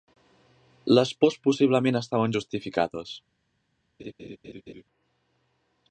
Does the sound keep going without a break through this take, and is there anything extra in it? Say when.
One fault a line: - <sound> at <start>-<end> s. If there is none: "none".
- laugh at 4.0-4.8 s